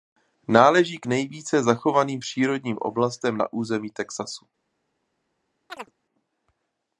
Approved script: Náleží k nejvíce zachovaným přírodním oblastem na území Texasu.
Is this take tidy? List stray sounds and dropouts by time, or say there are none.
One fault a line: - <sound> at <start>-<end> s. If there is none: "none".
- chirp at 5.7-5.9 s